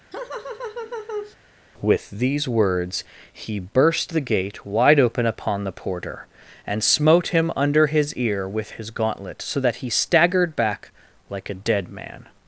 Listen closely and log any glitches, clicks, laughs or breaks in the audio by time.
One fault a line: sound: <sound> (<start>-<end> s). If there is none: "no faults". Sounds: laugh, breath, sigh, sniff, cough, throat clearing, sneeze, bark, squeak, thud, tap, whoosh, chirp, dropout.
sound: laugh (0.1-1.4 s)